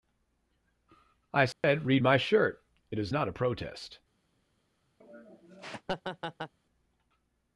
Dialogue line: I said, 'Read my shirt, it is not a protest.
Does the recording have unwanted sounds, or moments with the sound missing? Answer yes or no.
yes